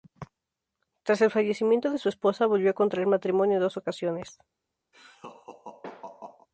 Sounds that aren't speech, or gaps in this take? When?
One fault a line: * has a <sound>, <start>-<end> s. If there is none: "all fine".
* has a laugh, 4.9-6.5 s